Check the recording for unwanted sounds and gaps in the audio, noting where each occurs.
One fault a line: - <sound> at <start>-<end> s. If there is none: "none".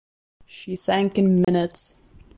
- dropout at 1.4-1.5 s